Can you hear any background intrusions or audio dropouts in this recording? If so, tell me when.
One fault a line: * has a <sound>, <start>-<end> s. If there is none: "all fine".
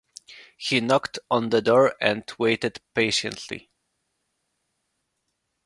all fine